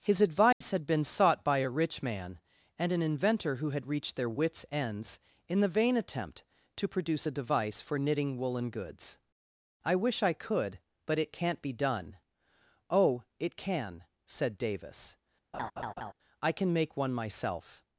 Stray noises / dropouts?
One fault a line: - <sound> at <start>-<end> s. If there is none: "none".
- dropout at 0.5-0.6 s
- laugh at 15.5-16.1 s